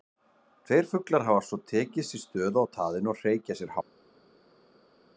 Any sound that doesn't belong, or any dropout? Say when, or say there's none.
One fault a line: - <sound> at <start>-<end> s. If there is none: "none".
none